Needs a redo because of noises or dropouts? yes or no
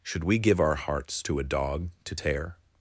no